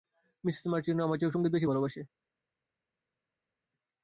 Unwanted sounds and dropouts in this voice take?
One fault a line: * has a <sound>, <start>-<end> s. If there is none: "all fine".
all fine